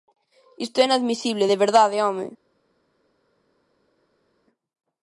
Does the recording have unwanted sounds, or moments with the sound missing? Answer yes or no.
no